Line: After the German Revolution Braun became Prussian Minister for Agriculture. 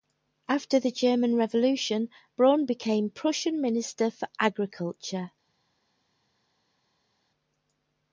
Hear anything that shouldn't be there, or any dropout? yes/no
no